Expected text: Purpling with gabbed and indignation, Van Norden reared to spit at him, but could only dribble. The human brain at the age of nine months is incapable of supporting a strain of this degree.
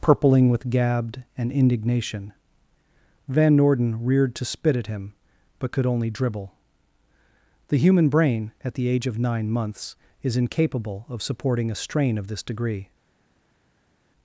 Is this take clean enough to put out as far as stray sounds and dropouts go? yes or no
yes